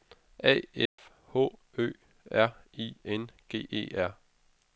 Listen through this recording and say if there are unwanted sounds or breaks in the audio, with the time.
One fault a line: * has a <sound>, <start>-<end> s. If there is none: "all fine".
* has a dropout, 0.9-1.0 s